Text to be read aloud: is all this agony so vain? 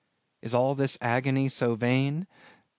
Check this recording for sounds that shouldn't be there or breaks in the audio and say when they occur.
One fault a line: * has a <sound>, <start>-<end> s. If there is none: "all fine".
all fine